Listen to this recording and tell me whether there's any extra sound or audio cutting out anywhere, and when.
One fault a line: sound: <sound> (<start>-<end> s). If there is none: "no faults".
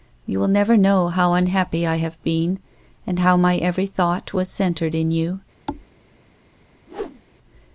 sound: thud (5.7-5.9 s)
sound: whoosh (6.9-7.2 s)